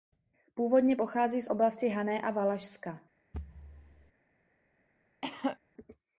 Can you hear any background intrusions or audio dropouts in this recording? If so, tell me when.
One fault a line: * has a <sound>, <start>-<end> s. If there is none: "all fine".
* has a thud, 3.3-4.1 s
* has a cough, 5.2-5.6 s